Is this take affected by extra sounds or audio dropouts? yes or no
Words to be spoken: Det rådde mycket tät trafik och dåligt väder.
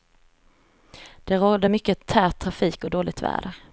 no